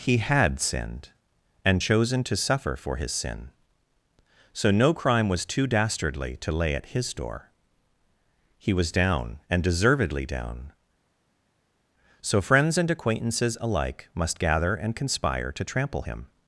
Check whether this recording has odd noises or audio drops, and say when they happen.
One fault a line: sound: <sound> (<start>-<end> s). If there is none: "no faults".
no faults